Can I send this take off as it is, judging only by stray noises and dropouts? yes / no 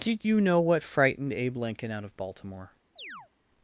no